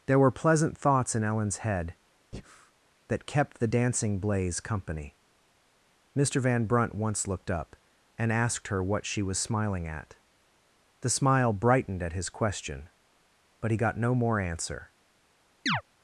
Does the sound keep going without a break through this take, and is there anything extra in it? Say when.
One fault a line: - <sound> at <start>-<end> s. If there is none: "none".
- breath at 2.3-2.7 s
- chirp at 15.7-15.8 s